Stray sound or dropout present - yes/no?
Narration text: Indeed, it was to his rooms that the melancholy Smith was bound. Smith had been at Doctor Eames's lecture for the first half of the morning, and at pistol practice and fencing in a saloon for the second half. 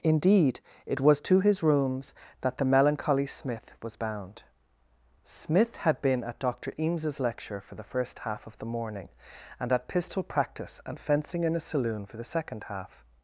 no